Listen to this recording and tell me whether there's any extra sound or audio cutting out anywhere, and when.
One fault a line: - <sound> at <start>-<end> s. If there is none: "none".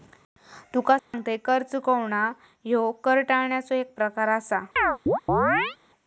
- dropout at 1.0-1.1 s
- chirp at 4.8-5.8 s